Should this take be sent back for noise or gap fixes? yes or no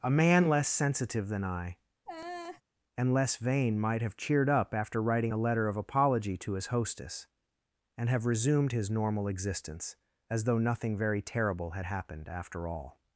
yes